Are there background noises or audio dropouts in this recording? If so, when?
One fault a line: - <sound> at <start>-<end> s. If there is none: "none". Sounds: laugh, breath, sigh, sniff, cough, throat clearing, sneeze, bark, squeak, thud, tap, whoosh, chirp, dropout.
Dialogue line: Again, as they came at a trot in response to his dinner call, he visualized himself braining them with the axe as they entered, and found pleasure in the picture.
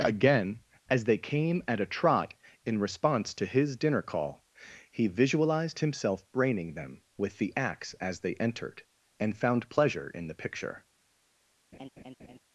- laugh at 11.7-12.4 s